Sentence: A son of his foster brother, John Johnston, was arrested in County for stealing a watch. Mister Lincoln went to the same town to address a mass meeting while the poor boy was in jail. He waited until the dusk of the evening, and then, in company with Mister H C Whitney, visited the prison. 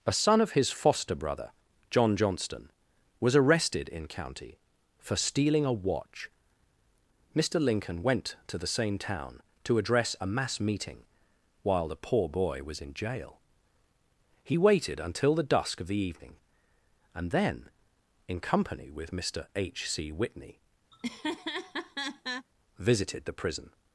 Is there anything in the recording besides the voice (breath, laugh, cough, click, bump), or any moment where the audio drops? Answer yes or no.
yes